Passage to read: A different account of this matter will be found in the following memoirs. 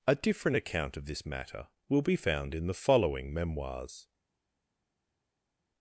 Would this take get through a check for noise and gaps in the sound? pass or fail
pass